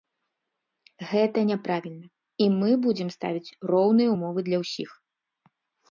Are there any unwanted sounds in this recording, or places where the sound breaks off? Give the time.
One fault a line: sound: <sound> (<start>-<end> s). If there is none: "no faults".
no faults